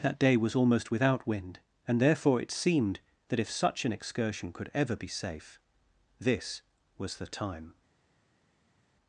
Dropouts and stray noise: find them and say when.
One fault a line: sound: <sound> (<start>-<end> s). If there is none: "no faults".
no faults